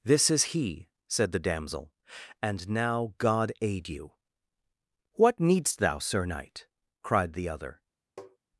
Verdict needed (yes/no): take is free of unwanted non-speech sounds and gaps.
no